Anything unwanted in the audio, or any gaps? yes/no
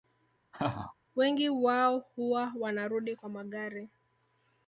yes